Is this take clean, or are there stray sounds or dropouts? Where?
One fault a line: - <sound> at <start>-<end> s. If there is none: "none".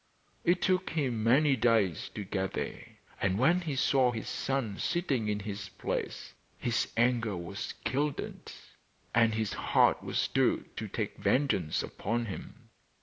none